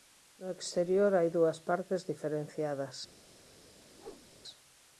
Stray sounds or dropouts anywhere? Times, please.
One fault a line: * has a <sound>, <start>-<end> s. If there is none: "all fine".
* has a whoosh, 3.9-4.3 s